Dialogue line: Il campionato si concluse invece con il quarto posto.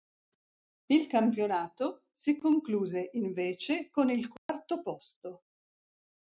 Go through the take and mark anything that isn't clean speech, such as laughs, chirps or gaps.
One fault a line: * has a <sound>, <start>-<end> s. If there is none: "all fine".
* has a dropout, 4.4-4.5 s